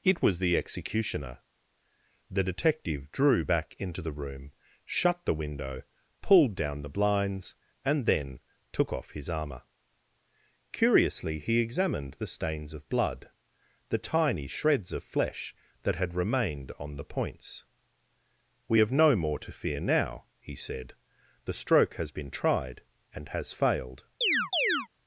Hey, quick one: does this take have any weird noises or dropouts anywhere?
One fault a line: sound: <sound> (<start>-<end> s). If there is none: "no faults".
sound: chirp (24.2-24.9 s)